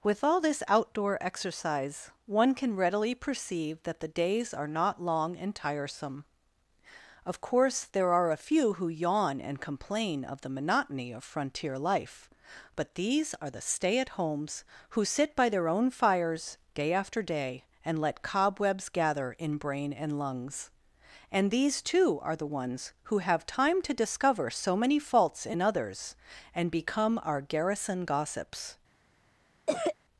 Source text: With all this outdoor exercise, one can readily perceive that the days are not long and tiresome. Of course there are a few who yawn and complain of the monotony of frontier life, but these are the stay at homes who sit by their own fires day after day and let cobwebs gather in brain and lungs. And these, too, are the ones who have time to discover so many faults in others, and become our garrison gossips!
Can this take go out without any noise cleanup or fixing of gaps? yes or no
no